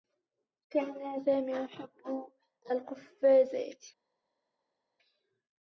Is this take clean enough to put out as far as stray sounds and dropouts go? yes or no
yes